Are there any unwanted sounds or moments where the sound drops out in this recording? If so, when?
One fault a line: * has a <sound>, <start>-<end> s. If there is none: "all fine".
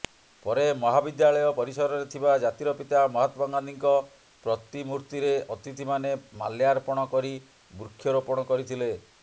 all fine